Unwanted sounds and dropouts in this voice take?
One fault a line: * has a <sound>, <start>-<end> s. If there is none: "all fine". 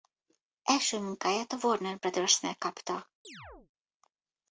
* has a chirp, 3.2-3.7 s